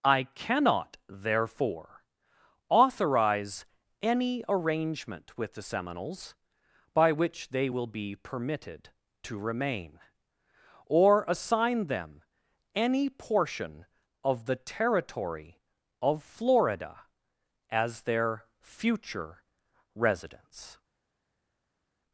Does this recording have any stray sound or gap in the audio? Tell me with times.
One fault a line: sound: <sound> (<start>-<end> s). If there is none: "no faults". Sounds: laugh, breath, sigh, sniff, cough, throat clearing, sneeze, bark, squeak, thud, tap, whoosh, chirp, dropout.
no faults